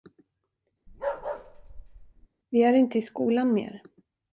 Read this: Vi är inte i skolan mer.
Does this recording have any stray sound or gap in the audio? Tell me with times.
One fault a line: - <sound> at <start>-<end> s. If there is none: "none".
- bark at 0.9-2.3 s